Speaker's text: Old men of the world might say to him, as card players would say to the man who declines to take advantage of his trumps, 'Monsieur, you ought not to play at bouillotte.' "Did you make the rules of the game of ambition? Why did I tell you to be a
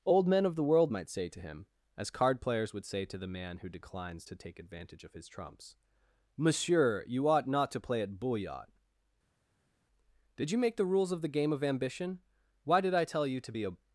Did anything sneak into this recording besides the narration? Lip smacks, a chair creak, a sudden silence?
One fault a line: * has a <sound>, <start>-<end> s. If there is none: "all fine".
all fine